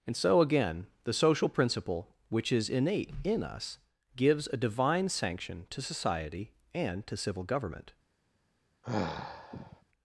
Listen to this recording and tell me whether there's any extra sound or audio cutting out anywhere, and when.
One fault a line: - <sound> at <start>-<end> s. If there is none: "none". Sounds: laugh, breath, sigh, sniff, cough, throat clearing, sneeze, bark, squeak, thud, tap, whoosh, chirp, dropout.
- sigh at 8.8-9.8 s